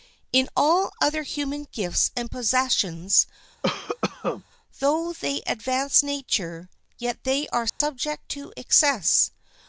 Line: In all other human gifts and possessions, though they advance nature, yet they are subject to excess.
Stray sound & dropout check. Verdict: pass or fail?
fail